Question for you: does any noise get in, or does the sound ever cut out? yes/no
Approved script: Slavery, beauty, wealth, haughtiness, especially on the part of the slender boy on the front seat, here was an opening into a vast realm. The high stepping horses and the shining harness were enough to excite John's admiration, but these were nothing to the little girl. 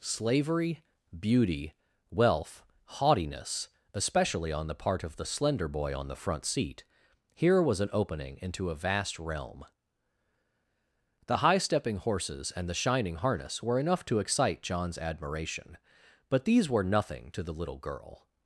no